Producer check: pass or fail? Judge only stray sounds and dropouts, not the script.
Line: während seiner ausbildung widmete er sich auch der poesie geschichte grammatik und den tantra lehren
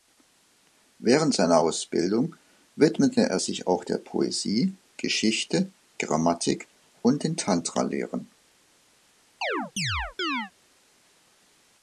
fail